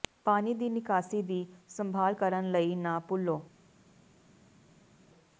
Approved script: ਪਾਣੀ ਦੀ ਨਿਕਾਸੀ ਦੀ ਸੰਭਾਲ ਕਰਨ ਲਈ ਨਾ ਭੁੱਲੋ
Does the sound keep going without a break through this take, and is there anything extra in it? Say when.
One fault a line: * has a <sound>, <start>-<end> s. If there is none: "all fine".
all fine